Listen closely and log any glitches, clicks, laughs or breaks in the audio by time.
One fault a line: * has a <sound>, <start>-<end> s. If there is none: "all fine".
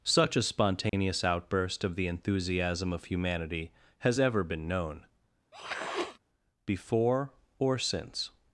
* has a dropout, 0.9-0.9 s
* has a sniff, 5.5-6.2 s